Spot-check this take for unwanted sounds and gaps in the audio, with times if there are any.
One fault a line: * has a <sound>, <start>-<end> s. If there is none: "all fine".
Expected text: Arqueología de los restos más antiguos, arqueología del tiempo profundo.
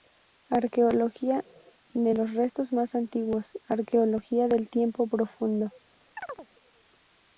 * has a chirp, 6.2-6.5 s